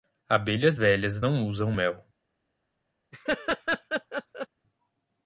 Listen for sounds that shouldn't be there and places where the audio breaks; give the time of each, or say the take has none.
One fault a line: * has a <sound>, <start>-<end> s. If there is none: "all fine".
* has a laugh, 3.1-4.5 s